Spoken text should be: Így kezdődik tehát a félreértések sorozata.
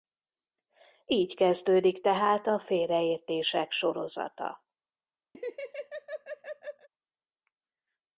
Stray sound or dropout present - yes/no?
yes